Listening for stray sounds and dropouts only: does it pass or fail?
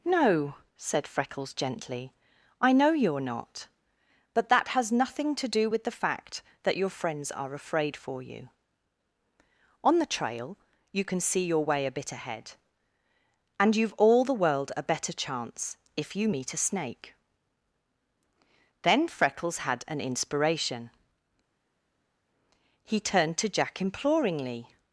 pass